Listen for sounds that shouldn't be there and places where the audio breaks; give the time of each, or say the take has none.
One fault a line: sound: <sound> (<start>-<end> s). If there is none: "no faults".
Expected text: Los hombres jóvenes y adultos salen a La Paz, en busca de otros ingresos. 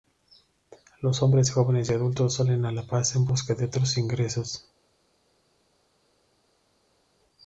no faults